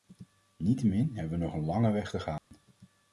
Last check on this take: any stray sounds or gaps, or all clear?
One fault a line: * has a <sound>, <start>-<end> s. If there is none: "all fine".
* has a dropout, 2.4-2.5 s